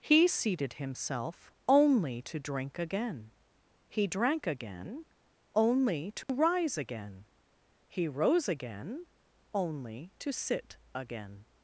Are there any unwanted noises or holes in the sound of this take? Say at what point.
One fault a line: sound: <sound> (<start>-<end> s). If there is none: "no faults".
sound: dropout (6.2-6.3 s)